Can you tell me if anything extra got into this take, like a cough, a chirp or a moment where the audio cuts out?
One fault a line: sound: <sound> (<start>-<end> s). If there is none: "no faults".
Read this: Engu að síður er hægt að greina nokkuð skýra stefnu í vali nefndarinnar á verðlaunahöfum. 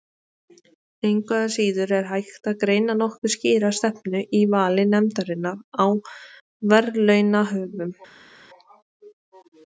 no faults